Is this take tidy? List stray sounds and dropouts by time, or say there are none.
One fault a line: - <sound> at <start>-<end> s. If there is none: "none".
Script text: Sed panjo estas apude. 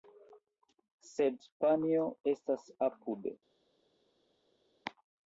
none